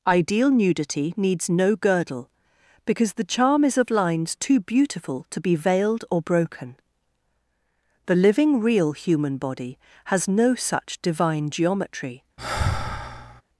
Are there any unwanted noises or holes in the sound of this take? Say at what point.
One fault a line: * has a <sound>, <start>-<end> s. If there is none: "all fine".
* has a sigh, 12.4-13.4 s